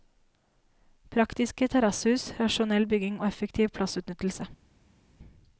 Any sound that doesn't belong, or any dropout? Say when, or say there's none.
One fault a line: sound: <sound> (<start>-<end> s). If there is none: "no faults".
no faults